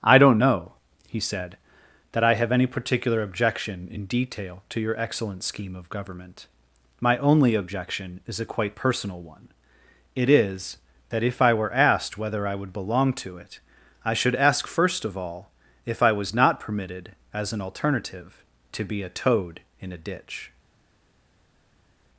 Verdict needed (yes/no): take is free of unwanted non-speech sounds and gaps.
yes